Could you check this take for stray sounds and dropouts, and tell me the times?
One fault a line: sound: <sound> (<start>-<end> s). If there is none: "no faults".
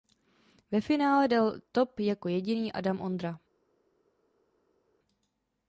no faults